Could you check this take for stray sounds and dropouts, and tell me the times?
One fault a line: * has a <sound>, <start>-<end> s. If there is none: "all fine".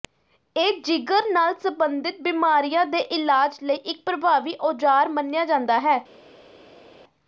all fine